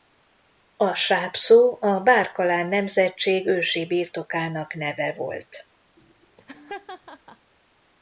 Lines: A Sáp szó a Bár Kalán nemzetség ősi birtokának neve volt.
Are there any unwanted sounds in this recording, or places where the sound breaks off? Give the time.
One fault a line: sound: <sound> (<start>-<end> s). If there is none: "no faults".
sound: laugh (6.0-7.5 s)